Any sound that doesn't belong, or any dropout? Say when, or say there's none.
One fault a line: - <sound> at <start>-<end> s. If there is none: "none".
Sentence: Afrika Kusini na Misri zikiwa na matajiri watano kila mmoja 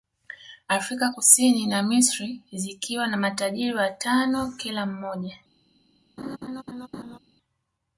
- laugh at 6.2-7.2 s